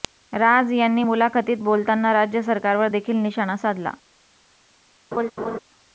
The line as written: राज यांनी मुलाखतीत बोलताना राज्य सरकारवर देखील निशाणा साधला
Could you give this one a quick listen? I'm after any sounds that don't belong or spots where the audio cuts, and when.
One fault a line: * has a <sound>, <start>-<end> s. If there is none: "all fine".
* has a laugh, 5.1-5.6 s